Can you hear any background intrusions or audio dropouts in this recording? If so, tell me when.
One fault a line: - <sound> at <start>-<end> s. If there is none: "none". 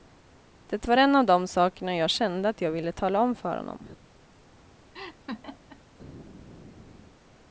- laugh at 4.9-5.8 s